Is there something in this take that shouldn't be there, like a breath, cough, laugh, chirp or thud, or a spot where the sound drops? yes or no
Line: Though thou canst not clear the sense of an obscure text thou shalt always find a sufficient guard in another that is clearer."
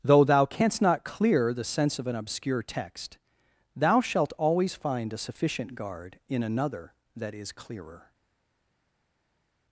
no